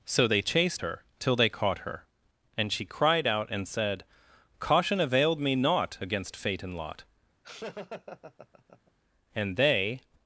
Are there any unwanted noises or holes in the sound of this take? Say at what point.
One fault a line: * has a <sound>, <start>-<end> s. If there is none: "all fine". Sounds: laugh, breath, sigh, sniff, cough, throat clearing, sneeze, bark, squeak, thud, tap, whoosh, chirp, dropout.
* has a laugh, 7.4-8.9 s